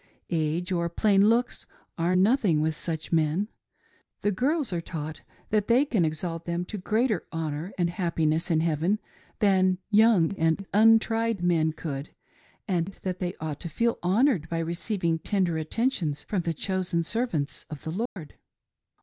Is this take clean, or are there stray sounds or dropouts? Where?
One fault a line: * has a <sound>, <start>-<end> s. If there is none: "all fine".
* has a dropout, 18.1-18.2 s